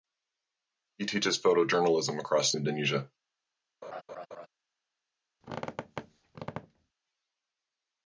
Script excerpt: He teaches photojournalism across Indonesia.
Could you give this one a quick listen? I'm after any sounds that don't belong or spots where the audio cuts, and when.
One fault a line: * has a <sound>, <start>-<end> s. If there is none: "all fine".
* has a laugh, 3.8-4.5 s
* has a squeak, 5.4-6.9 s